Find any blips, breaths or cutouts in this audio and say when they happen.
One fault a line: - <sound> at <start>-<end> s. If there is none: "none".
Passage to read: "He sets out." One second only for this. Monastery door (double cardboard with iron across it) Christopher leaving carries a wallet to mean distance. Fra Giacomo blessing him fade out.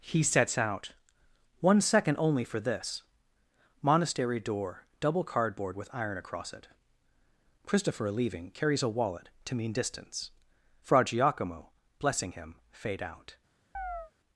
- chirp at 13.7-14.1 s